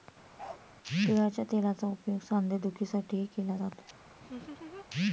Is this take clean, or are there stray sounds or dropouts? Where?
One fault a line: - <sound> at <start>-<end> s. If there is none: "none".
- bark at 0.4-0.6 s
- laugh at 4.2-4.9 s